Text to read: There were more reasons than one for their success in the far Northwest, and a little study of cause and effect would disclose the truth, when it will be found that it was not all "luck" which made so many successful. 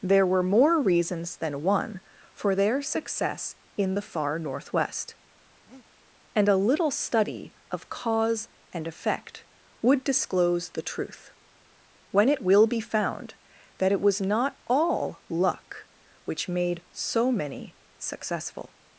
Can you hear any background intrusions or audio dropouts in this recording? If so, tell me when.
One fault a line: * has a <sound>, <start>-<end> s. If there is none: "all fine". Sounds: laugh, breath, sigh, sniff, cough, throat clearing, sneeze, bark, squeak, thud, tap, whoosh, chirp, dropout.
* has a breath, 5.7-5.9 s